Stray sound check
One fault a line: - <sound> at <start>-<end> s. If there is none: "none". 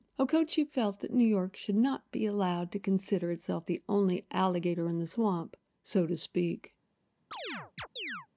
- chirp at 7.3-8.3 s